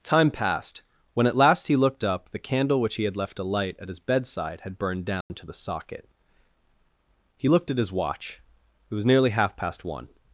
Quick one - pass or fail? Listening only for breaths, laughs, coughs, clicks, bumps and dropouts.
fail